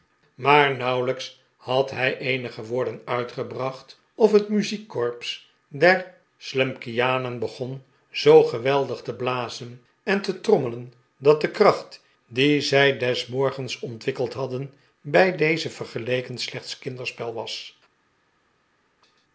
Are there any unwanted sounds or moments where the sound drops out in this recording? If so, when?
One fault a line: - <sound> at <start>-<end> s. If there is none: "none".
none